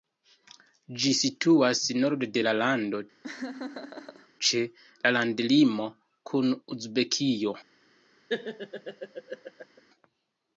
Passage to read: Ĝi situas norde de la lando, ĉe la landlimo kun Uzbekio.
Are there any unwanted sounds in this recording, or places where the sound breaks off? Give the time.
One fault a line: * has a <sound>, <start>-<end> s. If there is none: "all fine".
* has a laugh, 3.2-4.3 s
* has a laugh, 8.3-9.8 s